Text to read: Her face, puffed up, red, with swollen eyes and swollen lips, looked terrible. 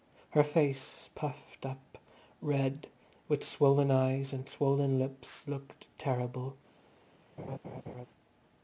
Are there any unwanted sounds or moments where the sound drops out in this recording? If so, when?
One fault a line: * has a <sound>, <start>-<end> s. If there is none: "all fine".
* has a laugh, 7.4-8.1 s